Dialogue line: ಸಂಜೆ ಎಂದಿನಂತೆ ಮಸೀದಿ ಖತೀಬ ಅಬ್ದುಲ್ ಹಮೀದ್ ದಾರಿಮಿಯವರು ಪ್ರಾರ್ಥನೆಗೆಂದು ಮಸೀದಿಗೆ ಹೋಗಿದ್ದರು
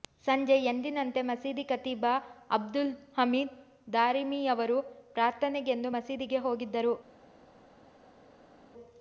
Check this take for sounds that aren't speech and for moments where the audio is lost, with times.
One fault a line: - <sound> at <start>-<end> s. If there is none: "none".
none